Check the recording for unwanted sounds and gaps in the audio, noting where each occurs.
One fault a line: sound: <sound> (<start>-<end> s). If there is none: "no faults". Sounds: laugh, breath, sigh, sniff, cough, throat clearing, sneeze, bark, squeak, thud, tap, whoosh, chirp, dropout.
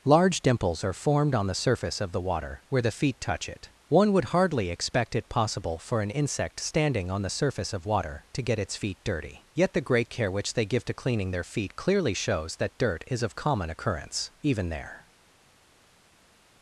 no faults